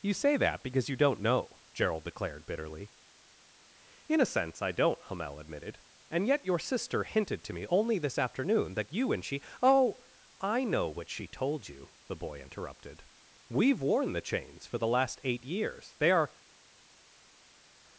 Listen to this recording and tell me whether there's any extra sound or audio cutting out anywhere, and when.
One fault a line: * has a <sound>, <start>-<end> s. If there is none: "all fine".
all fine